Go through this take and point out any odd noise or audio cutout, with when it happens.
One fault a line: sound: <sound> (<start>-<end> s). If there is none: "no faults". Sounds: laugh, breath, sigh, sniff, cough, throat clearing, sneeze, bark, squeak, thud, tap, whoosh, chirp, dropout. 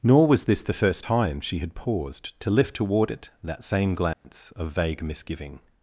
sound: dropout (4.1-4.2 s)